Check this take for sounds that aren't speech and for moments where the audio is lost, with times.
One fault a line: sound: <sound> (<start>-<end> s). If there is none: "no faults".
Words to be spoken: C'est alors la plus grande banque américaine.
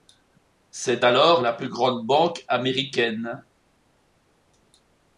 no faults